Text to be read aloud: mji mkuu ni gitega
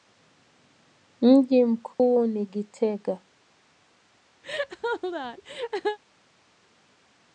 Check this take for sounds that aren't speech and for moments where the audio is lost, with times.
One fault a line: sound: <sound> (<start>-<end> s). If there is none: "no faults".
sound: dropout (1.9-2.0 s)
sound: laugh (4.4-6.0 s)